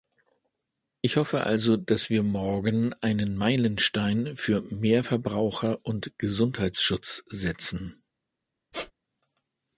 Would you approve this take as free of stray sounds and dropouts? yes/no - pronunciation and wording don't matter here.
no